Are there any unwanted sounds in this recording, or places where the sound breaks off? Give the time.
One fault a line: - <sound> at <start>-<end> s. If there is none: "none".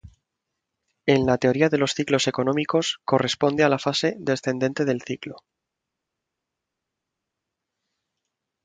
none